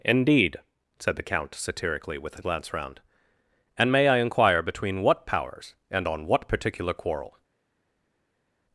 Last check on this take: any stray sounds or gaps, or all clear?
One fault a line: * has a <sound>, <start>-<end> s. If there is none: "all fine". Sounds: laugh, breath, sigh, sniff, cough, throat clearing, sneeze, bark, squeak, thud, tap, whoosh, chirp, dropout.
all fine